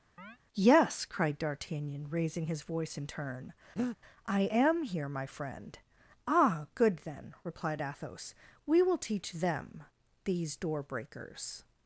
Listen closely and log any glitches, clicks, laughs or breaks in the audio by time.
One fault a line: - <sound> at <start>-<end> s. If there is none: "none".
- chirp at 0.2-0.4 s
- breath at 3.8-4.0 s